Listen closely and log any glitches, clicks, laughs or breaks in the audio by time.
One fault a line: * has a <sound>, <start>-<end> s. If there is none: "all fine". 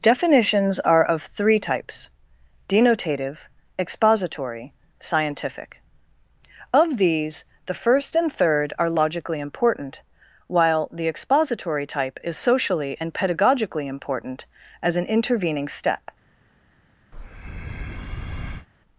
* has a breath, 17.1-18.7 s